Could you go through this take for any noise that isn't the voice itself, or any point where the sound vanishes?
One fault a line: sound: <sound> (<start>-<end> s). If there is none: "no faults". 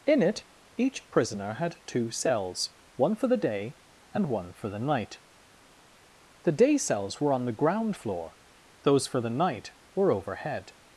no faults